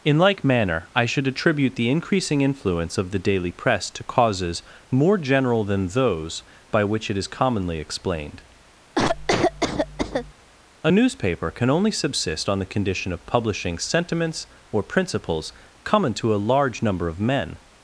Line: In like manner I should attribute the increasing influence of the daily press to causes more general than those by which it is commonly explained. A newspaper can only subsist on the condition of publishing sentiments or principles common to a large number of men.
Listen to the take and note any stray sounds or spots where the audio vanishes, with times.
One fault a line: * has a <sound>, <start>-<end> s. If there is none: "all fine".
* has a cough, 9.0-10.3 s